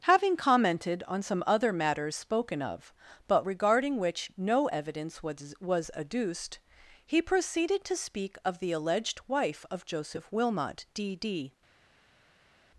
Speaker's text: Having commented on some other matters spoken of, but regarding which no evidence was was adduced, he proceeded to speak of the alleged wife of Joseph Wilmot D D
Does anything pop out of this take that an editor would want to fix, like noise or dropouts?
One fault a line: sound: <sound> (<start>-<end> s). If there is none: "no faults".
no faults